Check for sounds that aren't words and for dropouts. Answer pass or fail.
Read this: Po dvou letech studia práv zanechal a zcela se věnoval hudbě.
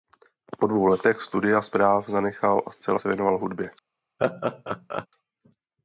fail